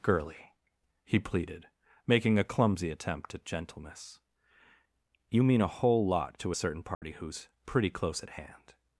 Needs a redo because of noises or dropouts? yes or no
yes